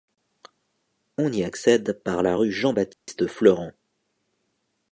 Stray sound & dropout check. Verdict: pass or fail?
fail